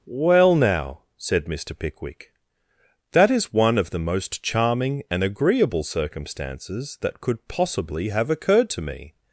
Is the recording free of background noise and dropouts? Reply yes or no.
yes